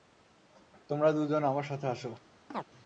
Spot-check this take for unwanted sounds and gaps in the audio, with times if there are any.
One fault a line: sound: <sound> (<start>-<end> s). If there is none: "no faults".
sound: chirp (2.5-2.7 s)